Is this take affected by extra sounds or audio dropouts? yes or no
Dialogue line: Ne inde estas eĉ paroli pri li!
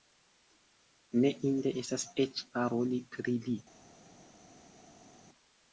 no